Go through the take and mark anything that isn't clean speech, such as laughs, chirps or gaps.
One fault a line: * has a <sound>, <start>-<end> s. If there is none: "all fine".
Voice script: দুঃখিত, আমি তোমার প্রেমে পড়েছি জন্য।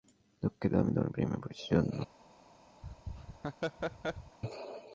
* has a laugh, 2.8-4.4 s